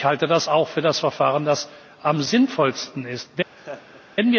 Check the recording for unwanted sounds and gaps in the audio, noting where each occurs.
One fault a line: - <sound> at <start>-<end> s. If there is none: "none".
- laugh at 3.6-4.0 s